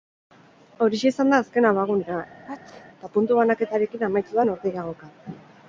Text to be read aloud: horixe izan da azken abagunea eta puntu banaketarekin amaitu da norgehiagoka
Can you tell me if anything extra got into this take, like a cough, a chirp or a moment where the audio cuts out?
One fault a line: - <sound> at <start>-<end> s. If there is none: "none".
- sneeze at 2.4-2.9 s